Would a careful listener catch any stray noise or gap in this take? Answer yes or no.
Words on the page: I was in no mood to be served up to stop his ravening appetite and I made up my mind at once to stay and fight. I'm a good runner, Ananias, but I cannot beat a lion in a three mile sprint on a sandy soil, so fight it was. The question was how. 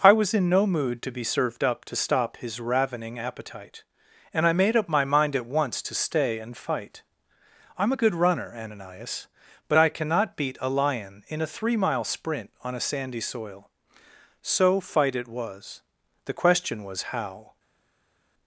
no